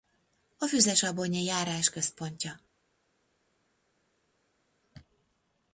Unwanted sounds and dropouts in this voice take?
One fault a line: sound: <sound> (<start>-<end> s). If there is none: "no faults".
no faults